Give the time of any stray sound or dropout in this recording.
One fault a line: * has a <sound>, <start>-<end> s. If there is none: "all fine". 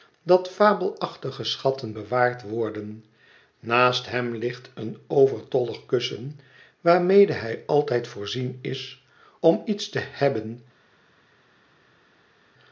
all fine